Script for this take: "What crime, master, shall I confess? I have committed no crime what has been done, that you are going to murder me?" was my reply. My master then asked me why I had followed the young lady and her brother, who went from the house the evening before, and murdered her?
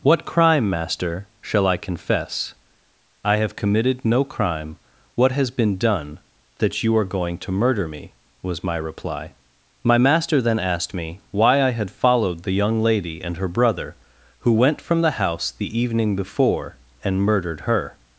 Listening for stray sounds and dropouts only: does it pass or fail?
pass